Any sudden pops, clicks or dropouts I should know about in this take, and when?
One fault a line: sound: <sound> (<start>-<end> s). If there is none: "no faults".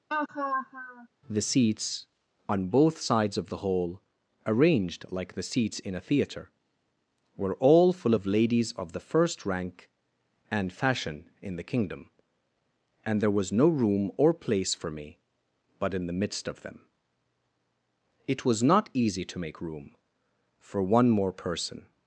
sound: laugh (0.1-1.1 s)